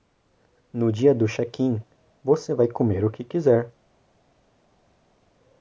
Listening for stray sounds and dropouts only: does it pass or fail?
pass